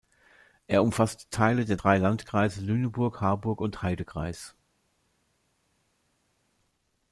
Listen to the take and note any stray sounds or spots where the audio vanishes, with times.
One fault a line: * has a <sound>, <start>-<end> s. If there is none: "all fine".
all fine